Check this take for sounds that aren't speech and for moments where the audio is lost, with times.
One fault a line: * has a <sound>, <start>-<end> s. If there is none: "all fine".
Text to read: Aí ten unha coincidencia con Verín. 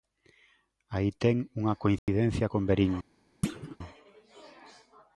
* has a dropout, 2.0-2.1 s
* has a thud, 3.4-3.8 s